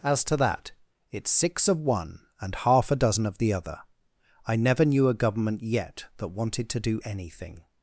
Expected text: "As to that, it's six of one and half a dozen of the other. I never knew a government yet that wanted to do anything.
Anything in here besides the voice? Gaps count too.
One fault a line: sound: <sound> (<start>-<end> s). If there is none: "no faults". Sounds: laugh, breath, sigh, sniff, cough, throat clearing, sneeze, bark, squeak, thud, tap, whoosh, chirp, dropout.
no faults